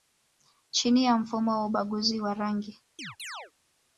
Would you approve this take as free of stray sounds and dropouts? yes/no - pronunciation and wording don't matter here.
no